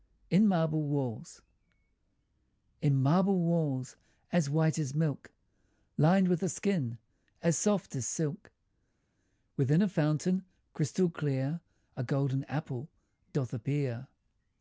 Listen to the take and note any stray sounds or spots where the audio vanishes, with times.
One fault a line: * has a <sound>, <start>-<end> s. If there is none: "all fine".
all fine